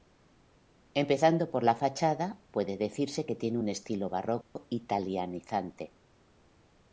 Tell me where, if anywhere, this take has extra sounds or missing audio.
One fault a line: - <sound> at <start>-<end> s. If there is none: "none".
- dropout at 4.4-4.6 s